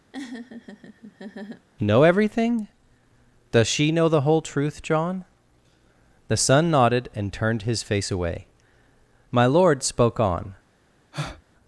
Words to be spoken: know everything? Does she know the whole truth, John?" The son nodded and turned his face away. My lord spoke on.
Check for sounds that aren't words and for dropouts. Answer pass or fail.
fail